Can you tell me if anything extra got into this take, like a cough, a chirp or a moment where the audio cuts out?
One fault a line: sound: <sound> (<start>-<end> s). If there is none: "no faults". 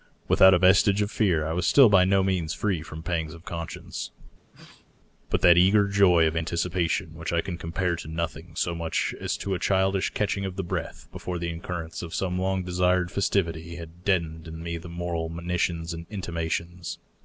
sound: sneeze (4.5-4.9 s)